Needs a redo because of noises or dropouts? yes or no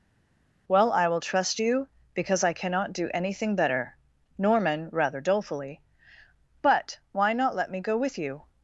no